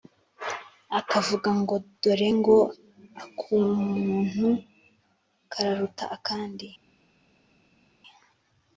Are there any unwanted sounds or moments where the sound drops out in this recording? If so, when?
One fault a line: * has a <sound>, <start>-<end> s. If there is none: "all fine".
all fine